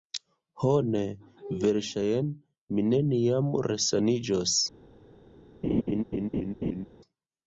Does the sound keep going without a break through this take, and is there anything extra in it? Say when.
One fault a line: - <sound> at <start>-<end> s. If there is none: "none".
- laugh at 5.6-6.9 s